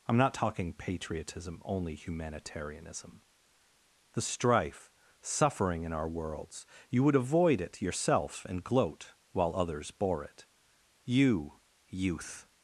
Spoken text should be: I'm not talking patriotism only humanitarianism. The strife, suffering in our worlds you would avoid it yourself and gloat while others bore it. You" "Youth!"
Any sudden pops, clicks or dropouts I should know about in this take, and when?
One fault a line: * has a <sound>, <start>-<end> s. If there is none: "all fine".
all fine